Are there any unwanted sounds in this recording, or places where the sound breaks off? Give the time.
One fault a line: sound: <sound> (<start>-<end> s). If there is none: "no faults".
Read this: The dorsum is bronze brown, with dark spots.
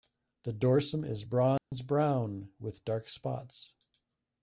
sound: dropout (1.6-1.7 s)